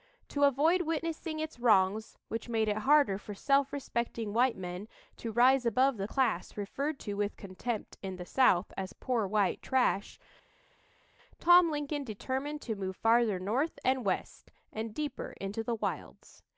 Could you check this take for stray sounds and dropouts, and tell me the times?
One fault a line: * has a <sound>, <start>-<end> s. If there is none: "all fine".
all fine